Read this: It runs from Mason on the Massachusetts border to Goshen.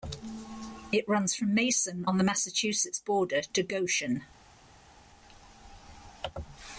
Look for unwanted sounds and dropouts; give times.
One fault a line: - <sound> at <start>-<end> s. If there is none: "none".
none